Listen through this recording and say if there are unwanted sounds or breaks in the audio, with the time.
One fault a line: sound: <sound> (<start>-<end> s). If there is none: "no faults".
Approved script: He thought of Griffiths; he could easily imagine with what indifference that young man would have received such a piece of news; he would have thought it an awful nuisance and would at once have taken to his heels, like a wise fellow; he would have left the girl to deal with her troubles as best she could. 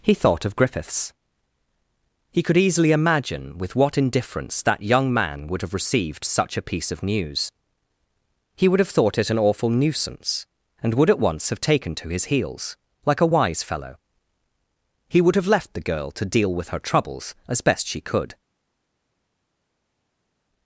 no faults